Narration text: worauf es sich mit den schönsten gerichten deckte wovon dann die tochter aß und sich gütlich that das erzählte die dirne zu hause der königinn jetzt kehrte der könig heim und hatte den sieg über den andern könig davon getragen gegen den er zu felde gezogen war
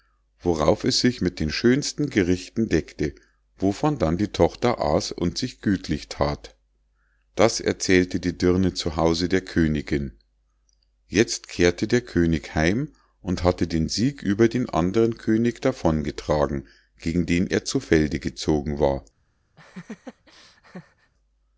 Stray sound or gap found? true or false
true